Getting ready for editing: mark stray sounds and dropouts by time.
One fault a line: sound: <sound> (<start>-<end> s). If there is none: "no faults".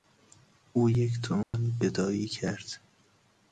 sound: dropout (1.4-1.5 s)